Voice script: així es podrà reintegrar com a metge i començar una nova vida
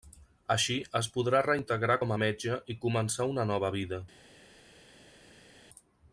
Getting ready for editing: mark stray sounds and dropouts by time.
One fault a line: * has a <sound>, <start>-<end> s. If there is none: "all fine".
all fine